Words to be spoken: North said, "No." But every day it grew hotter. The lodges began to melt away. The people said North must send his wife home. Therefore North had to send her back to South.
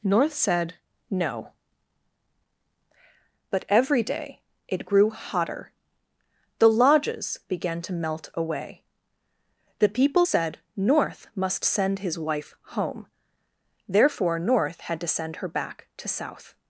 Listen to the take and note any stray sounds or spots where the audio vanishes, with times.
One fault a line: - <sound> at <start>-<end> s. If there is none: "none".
none